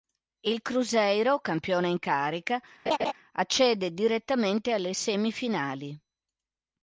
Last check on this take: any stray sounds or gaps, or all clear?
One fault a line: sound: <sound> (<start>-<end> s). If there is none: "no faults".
sound: laugh (2.9-3.1 s)